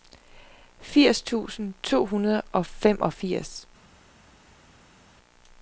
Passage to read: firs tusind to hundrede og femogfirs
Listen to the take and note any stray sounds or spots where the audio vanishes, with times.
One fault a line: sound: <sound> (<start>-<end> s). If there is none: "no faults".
no faults